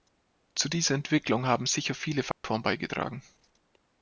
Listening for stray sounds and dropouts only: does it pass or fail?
fail